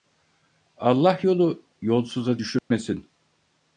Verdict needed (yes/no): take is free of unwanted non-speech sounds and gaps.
no